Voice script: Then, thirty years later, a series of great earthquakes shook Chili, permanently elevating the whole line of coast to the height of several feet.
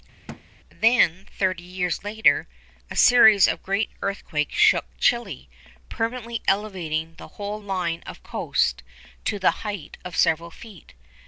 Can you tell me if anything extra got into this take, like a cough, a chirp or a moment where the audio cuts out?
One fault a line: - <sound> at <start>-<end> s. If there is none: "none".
- thud at 0.3-0.4 s